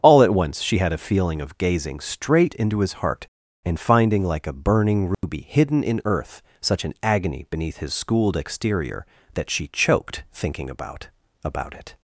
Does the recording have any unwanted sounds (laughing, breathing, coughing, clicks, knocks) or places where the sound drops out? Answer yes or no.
yes